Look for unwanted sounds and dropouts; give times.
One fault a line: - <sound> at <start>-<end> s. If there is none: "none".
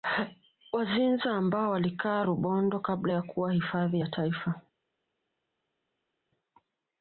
none